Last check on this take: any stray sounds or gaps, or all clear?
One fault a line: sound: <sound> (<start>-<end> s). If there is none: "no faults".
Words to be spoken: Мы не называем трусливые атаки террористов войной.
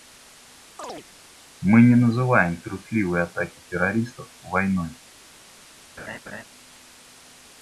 sound: chirp (0.8-1.1 s)
sound: laugh (6.0-6.4 s)